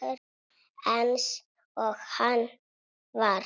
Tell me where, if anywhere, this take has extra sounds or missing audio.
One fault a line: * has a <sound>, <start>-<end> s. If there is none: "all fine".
all fine